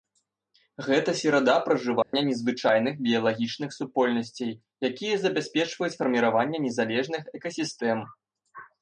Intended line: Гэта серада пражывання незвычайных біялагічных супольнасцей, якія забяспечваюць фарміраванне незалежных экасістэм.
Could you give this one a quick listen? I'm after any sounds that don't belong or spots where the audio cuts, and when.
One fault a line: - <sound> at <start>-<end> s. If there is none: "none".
- dropout at 2.0-2.1 s